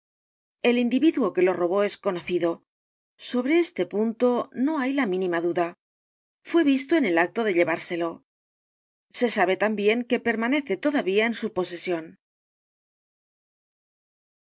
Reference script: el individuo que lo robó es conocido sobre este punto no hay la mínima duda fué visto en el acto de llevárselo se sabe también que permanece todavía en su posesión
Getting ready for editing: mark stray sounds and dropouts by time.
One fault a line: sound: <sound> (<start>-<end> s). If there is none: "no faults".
no faults